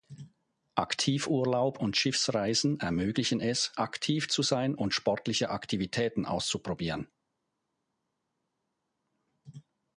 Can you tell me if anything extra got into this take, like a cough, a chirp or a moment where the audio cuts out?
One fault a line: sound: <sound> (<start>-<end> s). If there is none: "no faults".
no faults